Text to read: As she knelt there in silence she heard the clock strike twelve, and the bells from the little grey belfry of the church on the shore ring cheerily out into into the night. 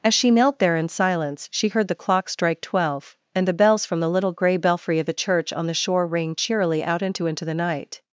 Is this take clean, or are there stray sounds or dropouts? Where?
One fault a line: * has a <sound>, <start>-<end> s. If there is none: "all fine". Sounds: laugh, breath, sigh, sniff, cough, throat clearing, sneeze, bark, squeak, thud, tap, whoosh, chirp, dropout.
all fine